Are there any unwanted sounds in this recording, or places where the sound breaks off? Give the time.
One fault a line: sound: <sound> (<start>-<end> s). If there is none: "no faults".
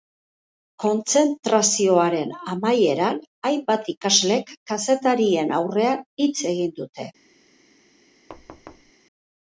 sound: thud (8.3-8.9 s)